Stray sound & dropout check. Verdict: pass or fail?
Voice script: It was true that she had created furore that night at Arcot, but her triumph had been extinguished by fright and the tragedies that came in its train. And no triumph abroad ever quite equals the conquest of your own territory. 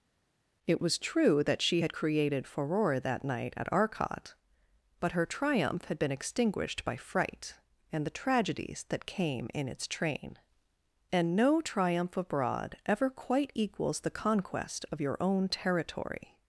pass